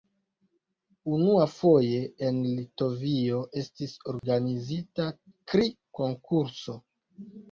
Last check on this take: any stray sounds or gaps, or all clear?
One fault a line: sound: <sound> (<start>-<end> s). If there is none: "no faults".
sound: dropout (4.2-4.2 s)